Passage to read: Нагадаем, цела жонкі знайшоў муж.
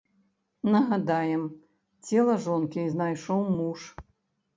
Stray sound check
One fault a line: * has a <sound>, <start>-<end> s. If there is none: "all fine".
all fine